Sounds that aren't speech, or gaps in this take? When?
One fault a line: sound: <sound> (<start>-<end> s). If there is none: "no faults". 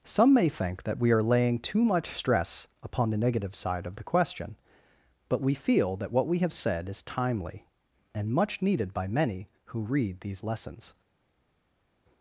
no faults